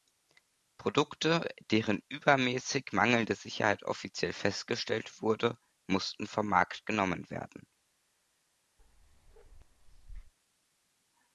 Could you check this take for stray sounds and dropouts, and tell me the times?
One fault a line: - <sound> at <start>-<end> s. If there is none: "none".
- bark at 8.8-10.3 s